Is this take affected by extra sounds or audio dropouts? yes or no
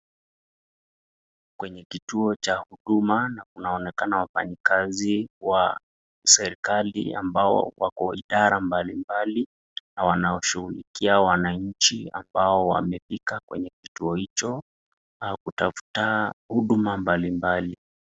no